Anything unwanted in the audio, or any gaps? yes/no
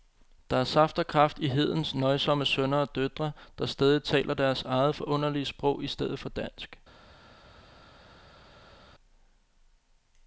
no